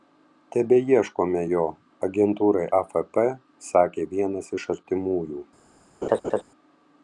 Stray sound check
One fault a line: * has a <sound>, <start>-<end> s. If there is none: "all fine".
* has a laugh, 6.0-6.4 s